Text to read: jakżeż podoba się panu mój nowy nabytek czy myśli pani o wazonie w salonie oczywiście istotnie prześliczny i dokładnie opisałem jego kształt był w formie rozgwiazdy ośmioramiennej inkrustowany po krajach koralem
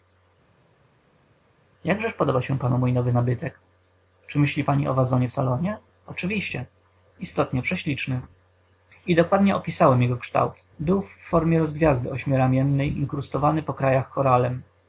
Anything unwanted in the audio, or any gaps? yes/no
no